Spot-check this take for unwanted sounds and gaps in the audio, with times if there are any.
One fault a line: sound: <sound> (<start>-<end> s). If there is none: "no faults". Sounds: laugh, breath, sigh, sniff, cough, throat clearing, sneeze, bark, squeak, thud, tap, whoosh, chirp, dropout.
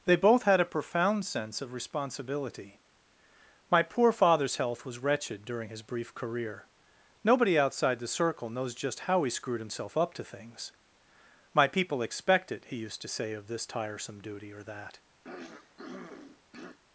sound: throat clearing (15.2-16.8 s)